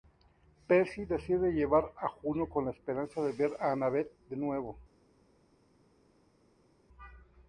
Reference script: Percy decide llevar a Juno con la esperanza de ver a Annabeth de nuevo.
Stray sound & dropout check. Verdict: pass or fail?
pass